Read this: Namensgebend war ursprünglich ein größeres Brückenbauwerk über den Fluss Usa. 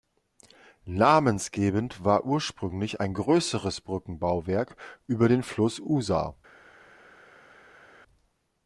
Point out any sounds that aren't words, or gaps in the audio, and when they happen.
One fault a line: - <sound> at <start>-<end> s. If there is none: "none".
none